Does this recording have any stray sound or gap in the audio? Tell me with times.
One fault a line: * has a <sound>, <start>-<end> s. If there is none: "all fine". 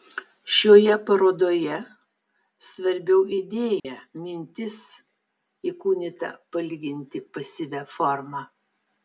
* has a dropout, 3.8-3.8 s